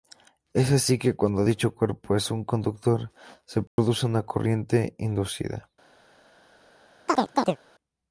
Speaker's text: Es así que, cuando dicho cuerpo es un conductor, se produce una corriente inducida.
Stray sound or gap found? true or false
true